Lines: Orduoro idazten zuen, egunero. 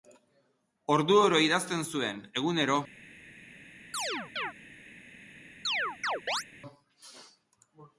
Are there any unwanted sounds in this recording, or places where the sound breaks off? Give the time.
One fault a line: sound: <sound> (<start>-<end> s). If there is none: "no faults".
sound: chirp (3.9-4.5 s)
sound: chirp (5.6-6.4 s)